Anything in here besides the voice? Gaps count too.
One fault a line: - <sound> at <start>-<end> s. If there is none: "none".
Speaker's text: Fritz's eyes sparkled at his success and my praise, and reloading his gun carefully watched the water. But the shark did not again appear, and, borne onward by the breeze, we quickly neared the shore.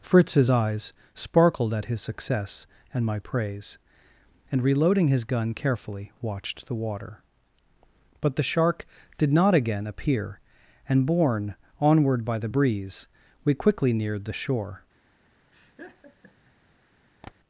- laugh at 15.5-16.5 s
- tap at 17.2-17.3 s